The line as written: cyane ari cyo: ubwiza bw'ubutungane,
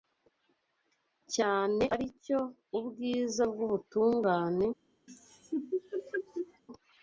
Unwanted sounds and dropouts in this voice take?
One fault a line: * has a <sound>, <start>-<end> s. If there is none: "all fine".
* has a laugh, 5.1-6.6 s